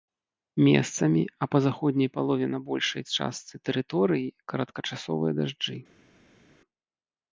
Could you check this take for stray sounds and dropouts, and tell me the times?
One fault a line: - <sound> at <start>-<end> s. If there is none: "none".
none